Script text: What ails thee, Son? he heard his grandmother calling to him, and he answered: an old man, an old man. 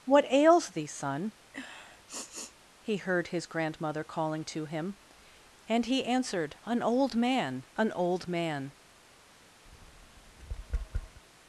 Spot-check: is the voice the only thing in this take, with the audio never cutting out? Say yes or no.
no